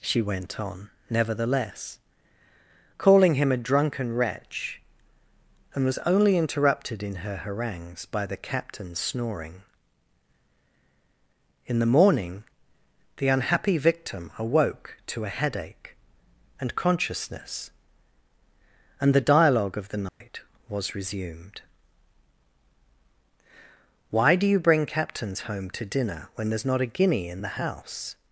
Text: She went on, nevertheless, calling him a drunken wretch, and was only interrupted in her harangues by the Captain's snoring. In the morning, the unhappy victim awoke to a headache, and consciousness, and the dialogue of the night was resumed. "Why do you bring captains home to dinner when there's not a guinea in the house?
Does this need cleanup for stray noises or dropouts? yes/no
yes